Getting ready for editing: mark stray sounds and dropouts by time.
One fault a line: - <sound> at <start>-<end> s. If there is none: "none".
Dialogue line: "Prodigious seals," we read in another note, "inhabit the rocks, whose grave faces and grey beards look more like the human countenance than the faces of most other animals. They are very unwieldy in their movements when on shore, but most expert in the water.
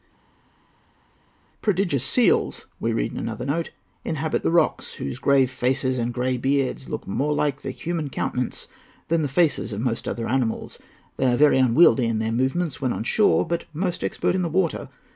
none